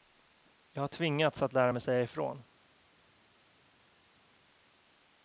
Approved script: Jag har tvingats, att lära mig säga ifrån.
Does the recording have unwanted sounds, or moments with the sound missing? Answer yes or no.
no